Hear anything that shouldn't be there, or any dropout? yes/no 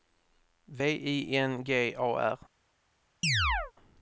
yes